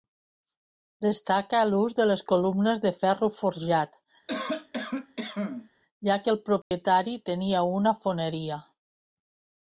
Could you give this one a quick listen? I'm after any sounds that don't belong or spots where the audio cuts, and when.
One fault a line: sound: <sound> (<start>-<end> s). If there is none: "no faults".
sound: cough (4.3-5.7 s)
sound: dropout (6.6-6.7 s)